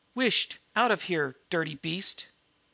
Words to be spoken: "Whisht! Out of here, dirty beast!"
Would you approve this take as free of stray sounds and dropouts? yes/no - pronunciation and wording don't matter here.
yes